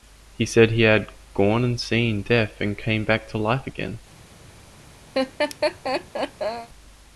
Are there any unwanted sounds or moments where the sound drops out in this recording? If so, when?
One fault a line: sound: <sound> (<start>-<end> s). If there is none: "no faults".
sound: laugh (5.1-6.7 s)